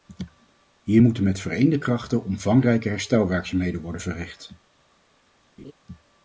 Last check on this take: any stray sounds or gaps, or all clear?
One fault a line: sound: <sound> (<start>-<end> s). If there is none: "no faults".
sound: laugh (5.6-5.7 s)